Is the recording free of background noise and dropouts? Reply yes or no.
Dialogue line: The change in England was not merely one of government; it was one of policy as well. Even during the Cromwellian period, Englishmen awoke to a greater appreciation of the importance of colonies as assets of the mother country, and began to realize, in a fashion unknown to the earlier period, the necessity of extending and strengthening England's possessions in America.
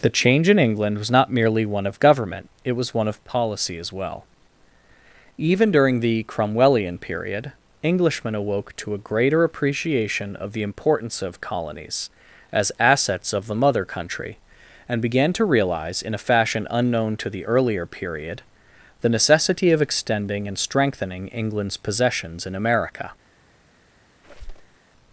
no